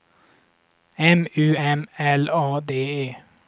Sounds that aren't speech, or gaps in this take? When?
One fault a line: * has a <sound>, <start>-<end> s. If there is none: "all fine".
all fine